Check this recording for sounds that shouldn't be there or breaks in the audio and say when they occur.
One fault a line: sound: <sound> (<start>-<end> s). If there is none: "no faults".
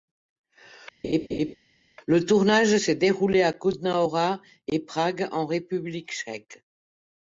sound: laugh (1.0-1.6 s)